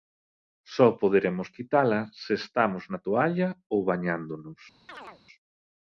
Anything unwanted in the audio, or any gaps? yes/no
yes